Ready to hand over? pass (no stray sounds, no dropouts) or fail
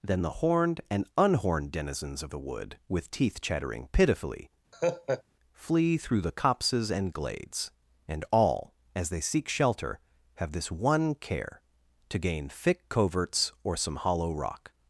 fail